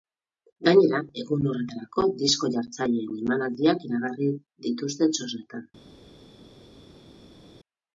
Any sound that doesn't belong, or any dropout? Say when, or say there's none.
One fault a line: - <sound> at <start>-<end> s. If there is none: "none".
none